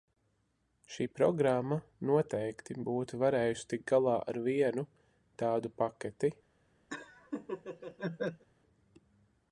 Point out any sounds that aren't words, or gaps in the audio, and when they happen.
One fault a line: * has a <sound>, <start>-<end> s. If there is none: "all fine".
* has a laugh, 6.9-8.4 s